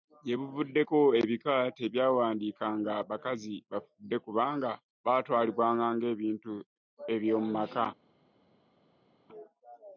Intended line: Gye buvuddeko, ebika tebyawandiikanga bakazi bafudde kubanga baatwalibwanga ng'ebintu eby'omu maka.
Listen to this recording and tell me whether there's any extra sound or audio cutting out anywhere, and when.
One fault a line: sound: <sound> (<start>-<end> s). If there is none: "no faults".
no faults